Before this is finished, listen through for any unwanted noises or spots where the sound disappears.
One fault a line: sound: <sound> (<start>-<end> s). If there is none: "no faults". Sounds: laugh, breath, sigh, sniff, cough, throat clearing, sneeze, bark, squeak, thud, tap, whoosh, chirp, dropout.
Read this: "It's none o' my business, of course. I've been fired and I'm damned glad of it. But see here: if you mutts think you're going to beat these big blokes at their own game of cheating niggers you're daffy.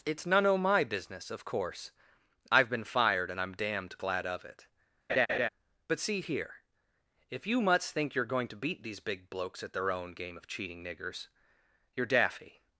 sound: laugh (5.1-5.5 s)